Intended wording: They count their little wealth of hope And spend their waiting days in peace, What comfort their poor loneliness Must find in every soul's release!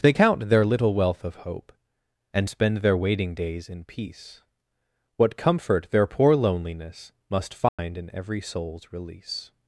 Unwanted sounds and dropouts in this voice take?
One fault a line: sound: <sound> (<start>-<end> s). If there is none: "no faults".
sound: dropout (7.7-7.8 s)